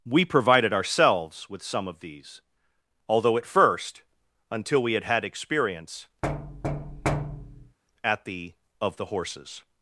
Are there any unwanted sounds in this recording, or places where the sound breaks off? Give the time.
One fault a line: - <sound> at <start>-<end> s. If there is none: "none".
- thud at 6.2-7.8 s